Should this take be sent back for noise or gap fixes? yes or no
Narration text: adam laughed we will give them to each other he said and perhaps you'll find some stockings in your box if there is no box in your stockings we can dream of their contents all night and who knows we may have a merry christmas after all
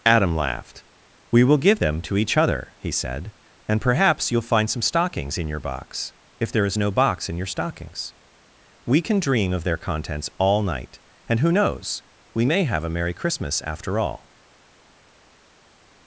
no